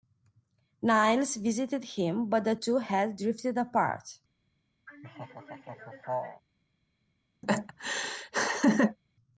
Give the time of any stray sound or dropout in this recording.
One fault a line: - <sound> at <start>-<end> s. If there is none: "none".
- laugh at 4.9-6.4 s
- laugh at 7.4-9.0 s